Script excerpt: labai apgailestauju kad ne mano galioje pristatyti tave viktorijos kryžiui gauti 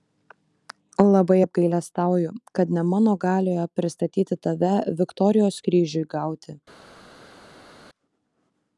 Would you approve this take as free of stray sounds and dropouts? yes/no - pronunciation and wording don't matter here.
yes